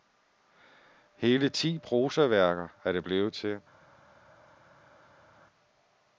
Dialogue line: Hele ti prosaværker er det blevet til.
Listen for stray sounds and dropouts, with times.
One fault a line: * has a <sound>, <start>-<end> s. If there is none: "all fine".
all fine